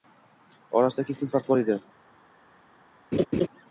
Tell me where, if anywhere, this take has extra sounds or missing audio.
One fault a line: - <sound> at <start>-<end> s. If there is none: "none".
- laugh at 3.1-3.5 s